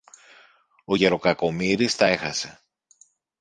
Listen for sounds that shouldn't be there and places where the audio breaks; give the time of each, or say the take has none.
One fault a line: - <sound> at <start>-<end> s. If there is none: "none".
none